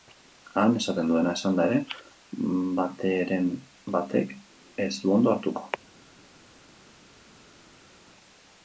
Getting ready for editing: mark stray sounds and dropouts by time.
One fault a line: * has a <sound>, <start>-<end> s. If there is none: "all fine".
all fine